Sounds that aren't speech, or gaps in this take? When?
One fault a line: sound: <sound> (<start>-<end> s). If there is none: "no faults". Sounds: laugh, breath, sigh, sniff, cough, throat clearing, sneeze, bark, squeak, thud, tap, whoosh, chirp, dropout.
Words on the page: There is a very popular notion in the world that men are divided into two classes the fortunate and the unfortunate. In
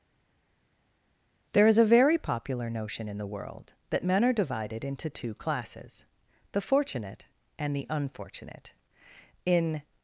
no faults